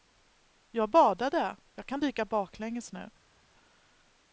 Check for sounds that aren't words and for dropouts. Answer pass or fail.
pass